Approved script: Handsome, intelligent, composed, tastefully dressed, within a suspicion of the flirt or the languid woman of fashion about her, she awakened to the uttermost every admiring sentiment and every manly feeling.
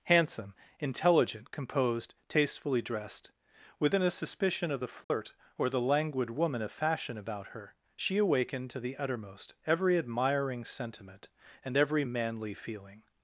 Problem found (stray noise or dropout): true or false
true